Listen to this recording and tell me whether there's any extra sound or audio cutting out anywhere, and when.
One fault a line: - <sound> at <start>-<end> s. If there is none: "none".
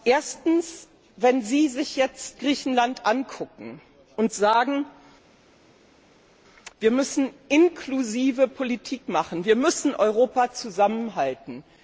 none